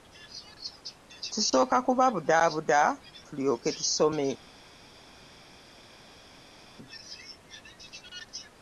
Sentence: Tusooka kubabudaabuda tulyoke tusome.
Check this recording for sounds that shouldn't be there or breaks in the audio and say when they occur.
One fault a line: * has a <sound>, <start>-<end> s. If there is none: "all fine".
all fine